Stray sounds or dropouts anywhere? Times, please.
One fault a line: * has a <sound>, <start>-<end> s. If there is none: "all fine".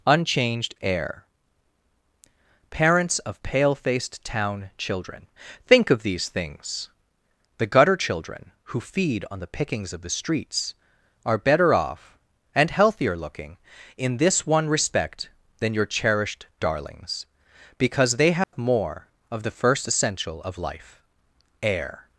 * has a dropout, 18.4-18.5 s